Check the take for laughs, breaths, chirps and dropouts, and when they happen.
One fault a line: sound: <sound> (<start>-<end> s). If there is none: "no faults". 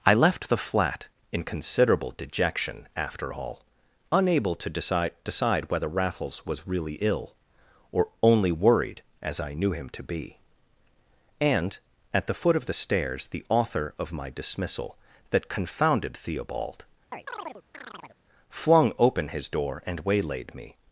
sound: chirp (17.1-18.2 s)